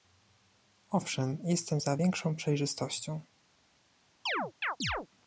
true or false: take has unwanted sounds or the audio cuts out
true